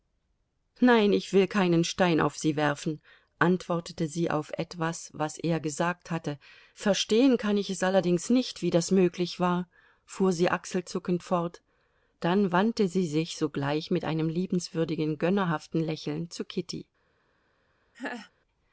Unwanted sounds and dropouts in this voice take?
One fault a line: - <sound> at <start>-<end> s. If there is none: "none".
- laugh at 17.9-18.3 s